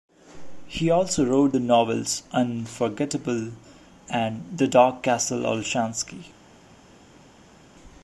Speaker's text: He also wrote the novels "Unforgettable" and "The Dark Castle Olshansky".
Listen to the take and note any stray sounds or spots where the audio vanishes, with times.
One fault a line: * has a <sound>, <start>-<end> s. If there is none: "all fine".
all fine